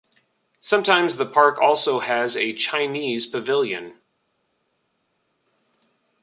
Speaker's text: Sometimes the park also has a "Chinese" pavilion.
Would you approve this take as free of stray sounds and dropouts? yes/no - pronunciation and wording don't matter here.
yes